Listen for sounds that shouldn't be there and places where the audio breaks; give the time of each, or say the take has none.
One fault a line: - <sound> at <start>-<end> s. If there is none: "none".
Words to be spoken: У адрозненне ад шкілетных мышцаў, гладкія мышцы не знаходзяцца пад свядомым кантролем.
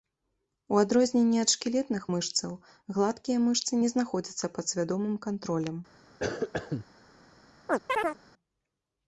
- cough at 6.2-6.9 s
- chirp at 7.7-8.2 s